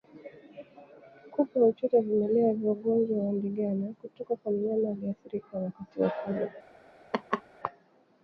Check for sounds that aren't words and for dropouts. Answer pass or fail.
fail